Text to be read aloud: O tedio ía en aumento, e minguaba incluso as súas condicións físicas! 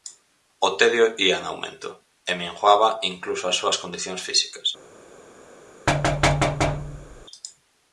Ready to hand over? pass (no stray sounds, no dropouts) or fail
fail